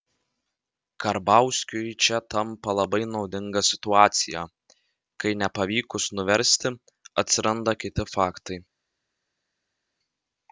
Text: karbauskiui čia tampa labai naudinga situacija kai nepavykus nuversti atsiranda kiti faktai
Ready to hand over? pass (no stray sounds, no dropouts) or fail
pass